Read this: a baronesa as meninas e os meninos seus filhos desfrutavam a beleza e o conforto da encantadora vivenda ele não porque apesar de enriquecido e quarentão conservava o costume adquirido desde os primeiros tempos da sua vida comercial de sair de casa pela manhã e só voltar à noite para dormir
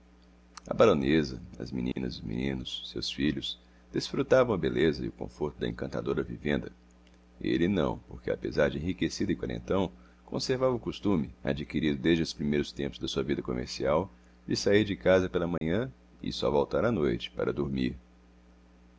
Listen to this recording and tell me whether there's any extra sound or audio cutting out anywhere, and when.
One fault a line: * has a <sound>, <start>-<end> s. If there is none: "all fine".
* has a dropout, 1.9-2.0 s
* has a dropout, 15.6-15.6 s